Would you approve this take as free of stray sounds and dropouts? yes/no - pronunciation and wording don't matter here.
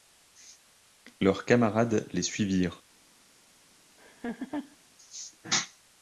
no